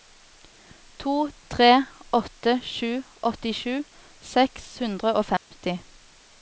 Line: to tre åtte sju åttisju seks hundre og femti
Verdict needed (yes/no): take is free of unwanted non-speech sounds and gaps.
no